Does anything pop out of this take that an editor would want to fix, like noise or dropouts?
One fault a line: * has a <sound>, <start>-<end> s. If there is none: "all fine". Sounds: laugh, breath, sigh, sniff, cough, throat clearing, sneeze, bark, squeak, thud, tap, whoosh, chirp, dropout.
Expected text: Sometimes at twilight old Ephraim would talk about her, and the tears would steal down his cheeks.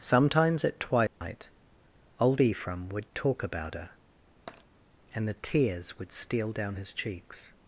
* has a dropout, 1.1-1.2 s
* has a tap, 4.5-4.6 s